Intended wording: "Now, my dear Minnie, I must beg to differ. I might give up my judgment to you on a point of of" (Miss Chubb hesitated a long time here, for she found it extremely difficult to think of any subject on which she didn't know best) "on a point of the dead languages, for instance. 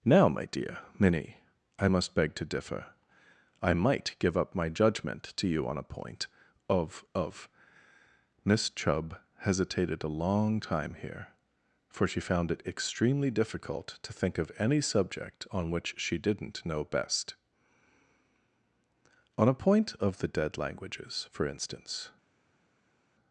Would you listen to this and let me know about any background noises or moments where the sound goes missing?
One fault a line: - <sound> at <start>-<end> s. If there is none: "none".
none